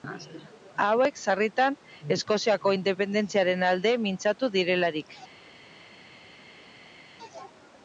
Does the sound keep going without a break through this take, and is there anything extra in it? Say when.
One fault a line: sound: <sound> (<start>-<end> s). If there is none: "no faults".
no faults